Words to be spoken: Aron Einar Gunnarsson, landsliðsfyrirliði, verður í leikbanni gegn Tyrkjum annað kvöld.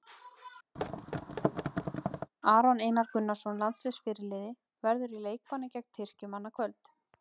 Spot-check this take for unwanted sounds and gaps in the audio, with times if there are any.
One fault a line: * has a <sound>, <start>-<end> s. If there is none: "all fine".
* has a thud, 0.8-2.3 s